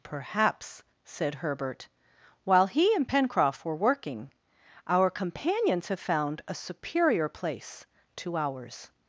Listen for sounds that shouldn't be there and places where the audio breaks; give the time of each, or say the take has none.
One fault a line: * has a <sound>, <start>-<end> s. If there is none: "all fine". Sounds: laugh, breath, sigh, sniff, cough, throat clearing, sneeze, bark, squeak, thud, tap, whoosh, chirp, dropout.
all fine